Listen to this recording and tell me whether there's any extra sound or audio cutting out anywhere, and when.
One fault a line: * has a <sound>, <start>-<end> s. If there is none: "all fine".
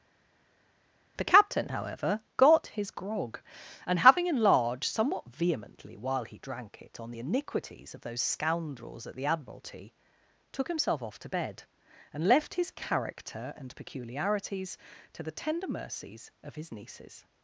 all fine